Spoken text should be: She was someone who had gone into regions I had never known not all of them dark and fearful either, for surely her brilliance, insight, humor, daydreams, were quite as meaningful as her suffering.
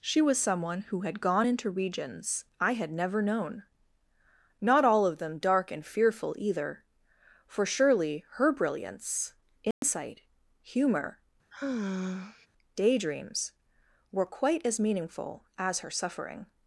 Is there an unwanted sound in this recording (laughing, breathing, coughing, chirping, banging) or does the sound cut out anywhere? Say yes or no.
yes